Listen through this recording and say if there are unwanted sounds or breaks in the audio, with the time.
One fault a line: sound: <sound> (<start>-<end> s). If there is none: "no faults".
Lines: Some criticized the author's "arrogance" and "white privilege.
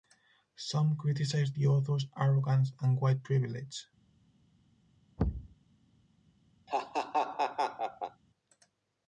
sound: thud (5.2-5.6 s)
sound: laugh (6.7-8.2 s)